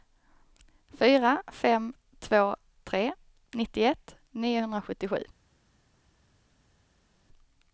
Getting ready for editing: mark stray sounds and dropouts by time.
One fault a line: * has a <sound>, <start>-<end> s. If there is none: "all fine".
all fine